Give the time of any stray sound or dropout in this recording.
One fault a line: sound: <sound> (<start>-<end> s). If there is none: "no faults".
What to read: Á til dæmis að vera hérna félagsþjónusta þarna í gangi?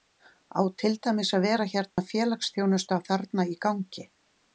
sound: dropout (1.9-2.0 s)